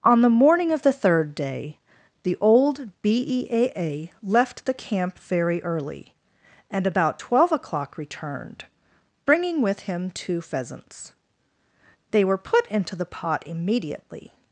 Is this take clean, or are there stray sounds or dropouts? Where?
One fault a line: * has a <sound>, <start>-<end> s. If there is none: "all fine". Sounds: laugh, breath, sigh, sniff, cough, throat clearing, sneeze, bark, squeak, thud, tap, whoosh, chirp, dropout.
all fine